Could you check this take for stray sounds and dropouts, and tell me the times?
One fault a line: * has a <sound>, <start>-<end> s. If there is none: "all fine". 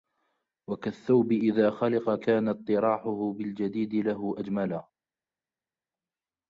all fine